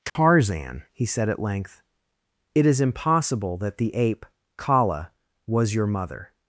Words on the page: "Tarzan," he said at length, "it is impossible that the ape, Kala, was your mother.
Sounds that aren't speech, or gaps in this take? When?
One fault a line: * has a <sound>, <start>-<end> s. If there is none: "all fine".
* has a dropout, 0.1-0.2 s